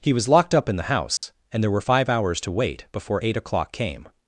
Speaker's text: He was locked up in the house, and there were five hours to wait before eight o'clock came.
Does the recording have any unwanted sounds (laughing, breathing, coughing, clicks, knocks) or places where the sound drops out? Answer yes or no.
yes